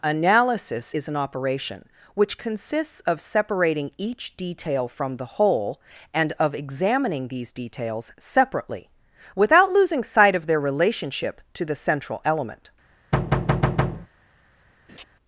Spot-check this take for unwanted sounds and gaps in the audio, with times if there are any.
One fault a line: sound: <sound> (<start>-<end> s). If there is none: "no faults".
sound: thud (13.1-14.1 s)
sound: laugh (14.9-15.0 s)